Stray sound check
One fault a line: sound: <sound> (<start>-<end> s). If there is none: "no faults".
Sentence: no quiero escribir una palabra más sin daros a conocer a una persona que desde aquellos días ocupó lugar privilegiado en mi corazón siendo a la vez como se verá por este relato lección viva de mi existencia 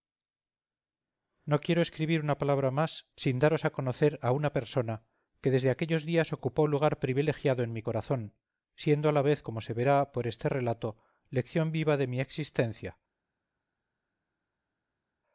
no faults